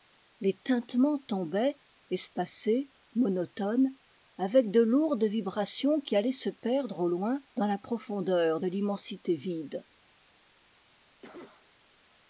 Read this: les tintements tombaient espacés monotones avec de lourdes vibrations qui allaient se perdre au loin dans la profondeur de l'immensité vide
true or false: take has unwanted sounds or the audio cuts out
true